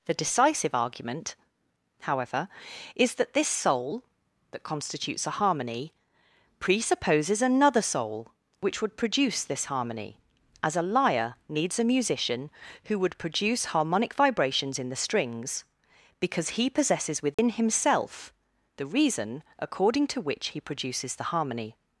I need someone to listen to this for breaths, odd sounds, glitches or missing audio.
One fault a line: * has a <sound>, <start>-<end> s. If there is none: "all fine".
* has a dropout, 17.3-17.4 s